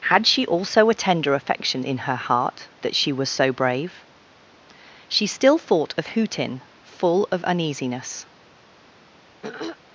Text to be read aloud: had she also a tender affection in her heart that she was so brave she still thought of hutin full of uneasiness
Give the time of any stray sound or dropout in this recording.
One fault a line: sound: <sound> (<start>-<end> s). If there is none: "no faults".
sound: throat clearing (9.4-9.8 s)